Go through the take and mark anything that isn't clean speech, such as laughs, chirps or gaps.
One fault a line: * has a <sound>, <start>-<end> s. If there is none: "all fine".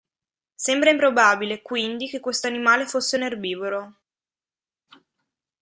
all fine